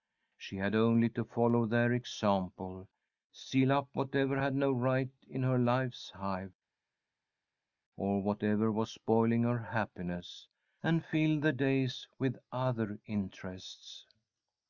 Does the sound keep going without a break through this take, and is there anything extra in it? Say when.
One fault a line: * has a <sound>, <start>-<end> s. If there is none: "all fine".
all fine